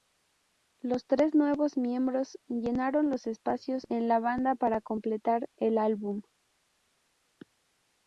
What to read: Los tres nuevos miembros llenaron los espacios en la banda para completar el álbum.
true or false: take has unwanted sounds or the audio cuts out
false